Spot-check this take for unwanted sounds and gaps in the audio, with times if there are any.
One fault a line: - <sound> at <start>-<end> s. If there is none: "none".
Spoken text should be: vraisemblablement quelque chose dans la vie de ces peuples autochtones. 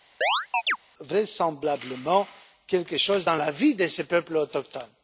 - chirp at 0.2-0.8 s